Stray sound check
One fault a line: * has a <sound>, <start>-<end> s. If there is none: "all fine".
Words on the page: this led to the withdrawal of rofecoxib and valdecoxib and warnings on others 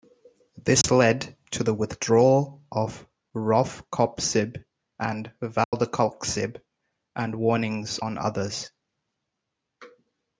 * has a dropout, 0.8-0.8 s
* has a dropout, 5.6-5.7 s